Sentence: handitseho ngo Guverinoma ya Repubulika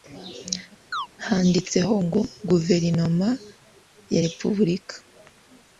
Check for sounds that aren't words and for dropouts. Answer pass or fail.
fail